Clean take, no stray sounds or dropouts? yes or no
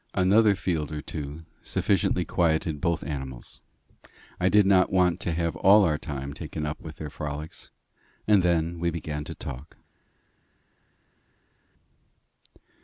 yes